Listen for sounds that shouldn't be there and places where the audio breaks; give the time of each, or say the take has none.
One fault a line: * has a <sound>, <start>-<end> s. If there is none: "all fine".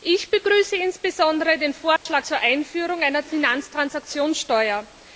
* has a dropout, 2.0-2.1 s